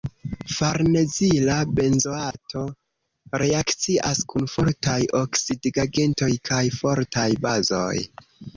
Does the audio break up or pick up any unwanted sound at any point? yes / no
yes